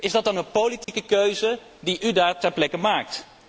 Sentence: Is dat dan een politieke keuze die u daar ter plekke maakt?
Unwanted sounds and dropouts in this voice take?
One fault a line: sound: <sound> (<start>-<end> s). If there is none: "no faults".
sound: dropout (0.8-0.9 s)